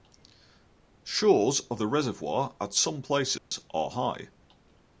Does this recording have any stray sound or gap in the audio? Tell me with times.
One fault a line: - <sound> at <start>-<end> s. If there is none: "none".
- dropout at 3.4-3.5 s